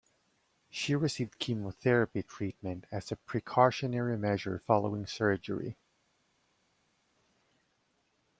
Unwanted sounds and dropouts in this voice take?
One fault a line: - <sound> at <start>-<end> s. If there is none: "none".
none